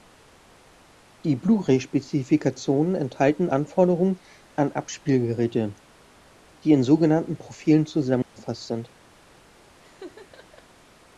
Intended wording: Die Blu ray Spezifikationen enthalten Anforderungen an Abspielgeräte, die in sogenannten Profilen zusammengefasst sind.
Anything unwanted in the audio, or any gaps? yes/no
yes